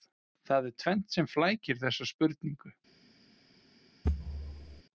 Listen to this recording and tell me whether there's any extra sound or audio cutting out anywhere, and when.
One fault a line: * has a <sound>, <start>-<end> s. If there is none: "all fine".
* has a thud, 4.0-4.8 s